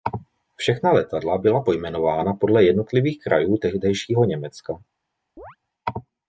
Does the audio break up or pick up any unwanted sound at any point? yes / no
yes